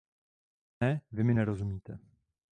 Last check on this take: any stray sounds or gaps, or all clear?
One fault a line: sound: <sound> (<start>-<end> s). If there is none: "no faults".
no faults